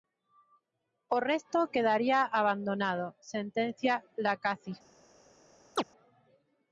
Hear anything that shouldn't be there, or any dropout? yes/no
yes